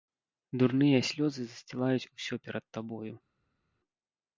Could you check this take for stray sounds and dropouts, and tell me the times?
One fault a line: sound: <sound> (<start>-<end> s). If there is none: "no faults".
no faults